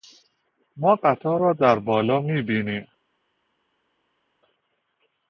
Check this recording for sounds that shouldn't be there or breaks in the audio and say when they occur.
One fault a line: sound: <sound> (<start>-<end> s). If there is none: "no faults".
no faults